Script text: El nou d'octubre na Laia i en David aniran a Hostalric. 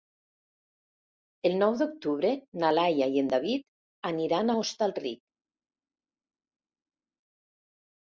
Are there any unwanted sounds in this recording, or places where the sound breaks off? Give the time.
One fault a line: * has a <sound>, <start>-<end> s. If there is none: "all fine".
all fine